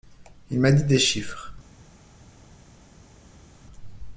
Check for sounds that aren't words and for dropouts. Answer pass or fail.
pass